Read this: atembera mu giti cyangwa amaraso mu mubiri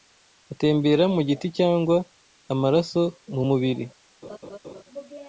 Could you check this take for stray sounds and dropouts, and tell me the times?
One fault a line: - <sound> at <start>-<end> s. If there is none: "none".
- laugh at 4.2-4.8 s